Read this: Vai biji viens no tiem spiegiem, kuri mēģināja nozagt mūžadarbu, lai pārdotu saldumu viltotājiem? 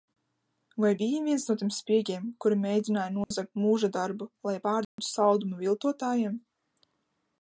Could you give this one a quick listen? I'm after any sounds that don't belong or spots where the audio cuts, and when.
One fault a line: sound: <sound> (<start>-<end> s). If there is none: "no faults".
sound: dropout (3.2-3.3 s)
sound: dropout (4.8-5.0 s)